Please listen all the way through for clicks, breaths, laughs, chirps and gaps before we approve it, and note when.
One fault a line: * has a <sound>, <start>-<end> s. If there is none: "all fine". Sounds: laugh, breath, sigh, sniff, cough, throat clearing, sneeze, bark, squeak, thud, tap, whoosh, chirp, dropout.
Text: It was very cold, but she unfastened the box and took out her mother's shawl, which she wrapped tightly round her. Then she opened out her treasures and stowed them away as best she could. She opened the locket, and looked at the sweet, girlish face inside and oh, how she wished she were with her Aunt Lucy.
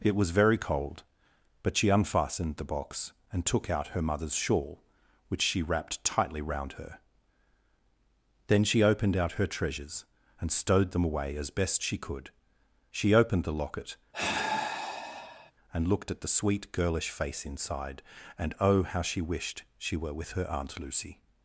* has a sigh, 14.1-15.5 s